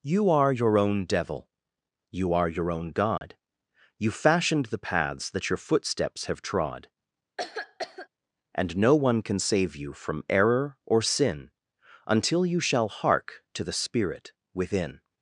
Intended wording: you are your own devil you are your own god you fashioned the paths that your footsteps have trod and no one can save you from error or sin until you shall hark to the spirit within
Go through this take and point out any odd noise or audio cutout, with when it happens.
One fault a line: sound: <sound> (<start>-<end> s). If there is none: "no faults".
sound: dropout (3.2-3.2 s)
sound: cough (7.4-8.1 s)